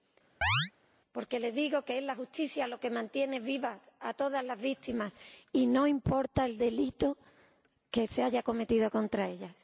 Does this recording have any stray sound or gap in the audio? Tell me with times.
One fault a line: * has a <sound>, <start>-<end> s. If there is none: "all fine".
* has a chirp, 0.4-0.7 s